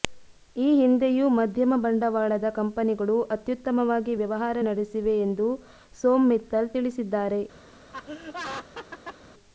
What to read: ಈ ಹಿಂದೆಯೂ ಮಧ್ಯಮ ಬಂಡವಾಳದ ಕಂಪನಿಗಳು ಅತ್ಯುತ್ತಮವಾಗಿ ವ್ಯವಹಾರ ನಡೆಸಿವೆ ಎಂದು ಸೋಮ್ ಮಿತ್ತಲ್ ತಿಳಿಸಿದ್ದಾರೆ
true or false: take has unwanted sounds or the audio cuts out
true